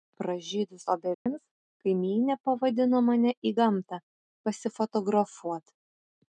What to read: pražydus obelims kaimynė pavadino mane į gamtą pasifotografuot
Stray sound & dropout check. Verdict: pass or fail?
fail